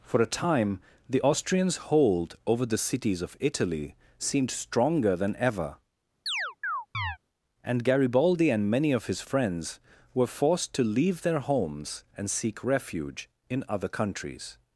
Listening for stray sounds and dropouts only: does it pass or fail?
fail